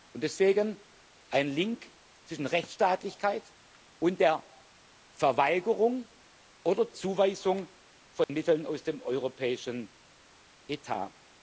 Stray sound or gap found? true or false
true